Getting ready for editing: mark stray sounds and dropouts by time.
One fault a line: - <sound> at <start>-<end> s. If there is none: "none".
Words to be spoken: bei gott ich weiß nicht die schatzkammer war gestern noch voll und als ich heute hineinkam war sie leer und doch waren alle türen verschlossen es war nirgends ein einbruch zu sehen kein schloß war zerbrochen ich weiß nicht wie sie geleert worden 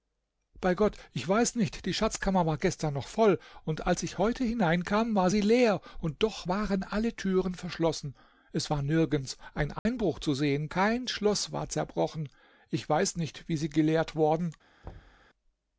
- dropout at 9.8-9.9 s
- thud at 14.8-15.3 s